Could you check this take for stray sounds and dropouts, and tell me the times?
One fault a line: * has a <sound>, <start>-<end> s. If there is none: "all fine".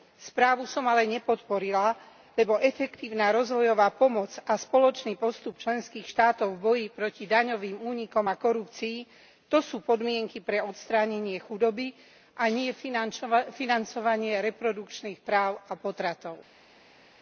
all fine